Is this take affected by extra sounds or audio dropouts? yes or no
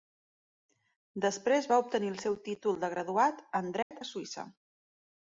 yes